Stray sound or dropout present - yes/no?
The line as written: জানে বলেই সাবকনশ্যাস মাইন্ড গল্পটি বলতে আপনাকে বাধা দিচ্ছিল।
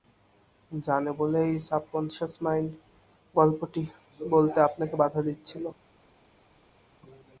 no